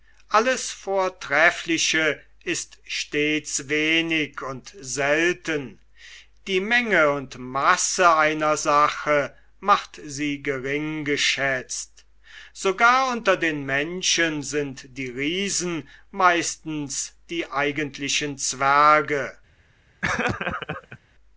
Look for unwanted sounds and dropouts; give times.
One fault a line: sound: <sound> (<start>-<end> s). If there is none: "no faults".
sound: laugh (20.0-21.0 s)